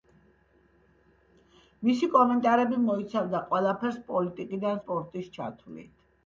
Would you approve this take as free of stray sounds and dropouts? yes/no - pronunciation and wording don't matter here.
yes